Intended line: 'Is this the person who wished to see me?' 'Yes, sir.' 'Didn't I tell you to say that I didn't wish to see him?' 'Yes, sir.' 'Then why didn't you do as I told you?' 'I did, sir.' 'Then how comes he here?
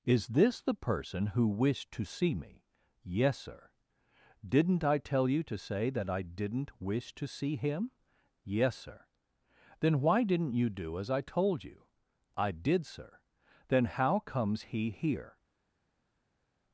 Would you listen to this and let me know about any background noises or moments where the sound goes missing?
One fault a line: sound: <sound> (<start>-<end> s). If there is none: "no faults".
no faults